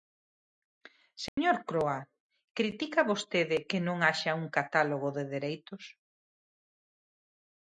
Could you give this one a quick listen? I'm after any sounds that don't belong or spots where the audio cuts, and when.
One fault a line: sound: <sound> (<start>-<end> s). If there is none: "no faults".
sound: dropout (1.3-1.4 s)